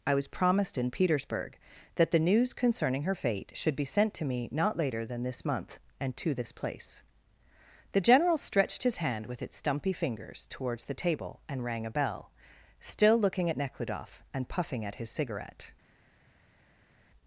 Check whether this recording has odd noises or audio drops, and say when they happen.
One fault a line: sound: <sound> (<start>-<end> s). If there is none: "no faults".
no faults